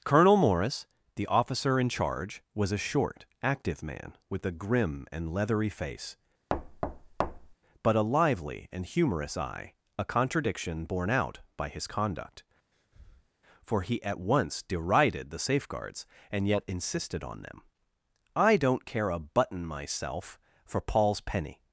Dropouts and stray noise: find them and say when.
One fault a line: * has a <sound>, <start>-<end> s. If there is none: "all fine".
* has a thud, 6.5-7.5 s
* has a breath, 12.7-13.3 s